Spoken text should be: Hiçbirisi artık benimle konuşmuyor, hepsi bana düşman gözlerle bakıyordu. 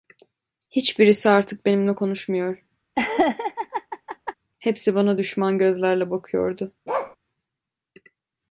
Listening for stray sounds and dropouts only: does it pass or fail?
fail